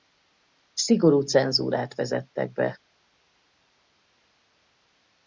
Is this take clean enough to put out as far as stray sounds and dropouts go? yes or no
yes